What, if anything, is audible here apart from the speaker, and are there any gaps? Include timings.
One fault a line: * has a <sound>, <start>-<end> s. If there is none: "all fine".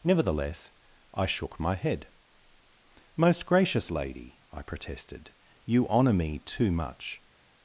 all fine